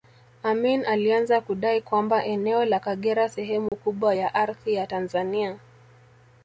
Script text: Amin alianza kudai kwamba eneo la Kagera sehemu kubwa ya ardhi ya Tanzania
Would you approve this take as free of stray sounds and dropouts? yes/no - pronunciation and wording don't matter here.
no